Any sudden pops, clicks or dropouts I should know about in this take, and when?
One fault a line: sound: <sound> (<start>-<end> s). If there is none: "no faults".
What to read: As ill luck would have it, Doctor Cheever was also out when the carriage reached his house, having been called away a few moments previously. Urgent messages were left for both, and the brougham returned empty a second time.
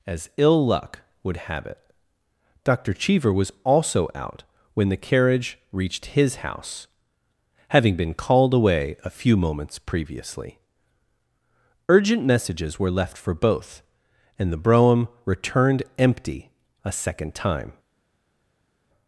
no faults